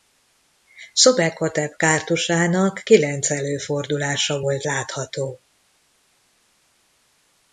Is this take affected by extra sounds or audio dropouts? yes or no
no